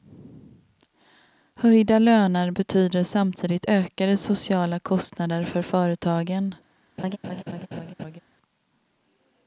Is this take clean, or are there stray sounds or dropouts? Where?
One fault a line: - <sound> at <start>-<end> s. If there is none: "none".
- laugh at 7.0-8.2 s